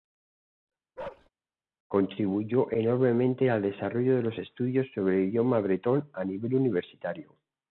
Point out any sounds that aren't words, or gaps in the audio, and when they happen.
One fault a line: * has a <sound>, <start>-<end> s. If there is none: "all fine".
* has a bark, 1.0-1.3 s